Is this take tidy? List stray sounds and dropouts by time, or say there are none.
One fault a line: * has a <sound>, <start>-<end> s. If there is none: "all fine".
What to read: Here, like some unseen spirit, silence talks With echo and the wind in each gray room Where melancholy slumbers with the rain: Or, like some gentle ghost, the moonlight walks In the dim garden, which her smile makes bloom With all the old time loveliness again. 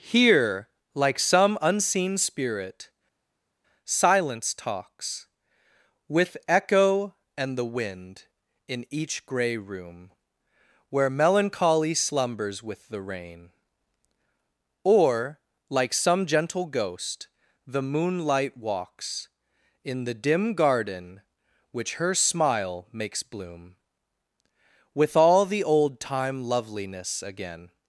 all fine